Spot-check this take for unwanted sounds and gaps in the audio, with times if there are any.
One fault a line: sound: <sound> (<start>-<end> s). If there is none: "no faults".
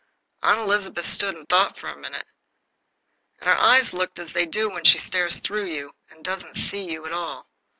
no faults